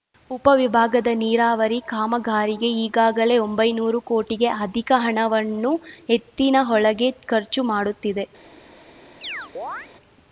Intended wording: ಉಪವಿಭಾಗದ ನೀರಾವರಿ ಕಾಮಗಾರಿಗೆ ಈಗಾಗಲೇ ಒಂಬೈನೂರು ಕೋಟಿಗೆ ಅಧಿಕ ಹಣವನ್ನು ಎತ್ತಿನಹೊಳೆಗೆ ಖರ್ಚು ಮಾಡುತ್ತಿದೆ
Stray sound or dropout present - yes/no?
yes